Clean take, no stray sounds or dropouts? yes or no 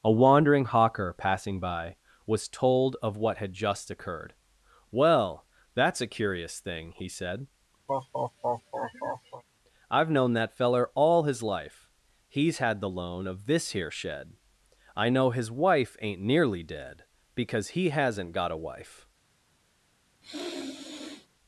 no